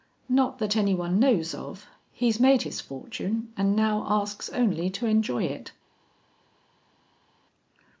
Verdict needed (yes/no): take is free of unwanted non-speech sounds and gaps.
yes